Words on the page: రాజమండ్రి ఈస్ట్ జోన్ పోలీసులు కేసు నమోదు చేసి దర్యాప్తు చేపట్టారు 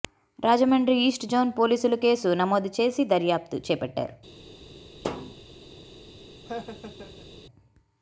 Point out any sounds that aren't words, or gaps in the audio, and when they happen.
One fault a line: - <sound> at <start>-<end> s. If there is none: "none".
- thud at 5.0-5.4 s
- laugh at 6.5-7.3 s